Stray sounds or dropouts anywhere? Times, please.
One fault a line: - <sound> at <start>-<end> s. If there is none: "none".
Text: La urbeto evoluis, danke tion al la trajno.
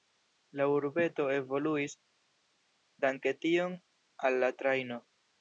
none